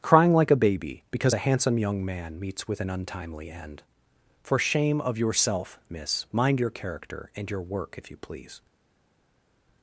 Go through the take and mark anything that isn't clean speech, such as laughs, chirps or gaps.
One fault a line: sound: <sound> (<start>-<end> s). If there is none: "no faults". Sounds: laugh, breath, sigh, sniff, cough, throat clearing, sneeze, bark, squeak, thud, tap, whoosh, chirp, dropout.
no faults